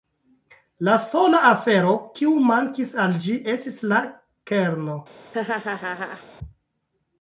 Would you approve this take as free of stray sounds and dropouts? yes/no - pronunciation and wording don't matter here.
no